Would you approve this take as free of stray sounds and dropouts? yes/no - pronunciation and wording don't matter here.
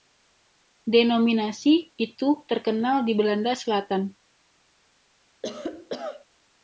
no